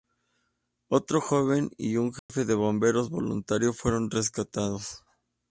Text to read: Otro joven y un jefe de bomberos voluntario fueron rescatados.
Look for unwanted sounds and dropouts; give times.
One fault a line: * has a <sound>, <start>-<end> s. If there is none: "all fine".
* has a dropout, 2.2-2.3 s